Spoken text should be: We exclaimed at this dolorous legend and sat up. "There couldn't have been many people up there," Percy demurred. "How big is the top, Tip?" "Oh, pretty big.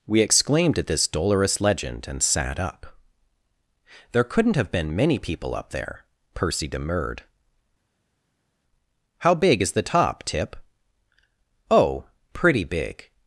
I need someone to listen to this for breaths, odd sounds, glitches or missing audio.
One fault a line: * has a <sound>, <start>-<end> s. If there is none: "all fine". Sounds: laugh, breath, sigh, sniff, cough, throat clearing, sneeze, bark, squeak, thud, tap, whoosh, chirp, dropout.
all fine